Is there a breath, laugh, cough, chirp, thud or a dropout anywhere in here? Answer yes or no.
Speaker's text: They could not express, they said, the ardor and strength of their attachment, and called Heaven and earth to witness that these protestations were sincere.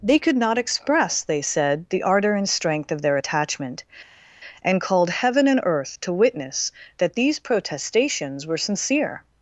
no